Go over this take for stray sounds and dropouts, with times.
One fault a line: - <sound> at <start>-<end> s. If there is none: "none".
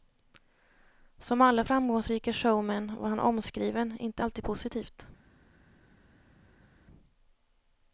none